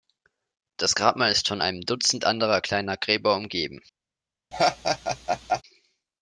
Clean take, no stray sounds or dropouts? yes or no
no